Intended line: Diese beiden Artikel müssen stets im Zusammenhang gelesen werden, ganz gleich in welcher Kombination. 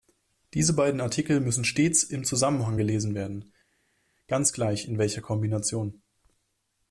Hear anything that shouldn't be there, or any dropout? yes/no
no